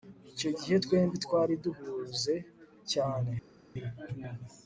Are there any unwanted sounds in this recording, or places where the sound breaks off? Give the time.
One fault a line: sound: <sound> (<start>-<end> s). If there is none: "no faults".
no faults